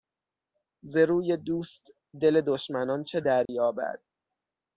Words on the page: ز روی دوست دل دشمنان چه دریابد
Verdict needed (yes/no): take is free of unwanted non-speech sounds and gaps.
no